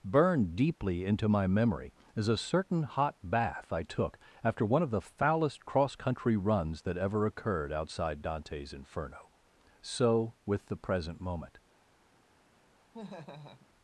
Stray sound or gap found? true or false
true